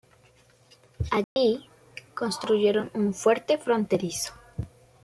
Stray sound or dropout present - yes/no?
yes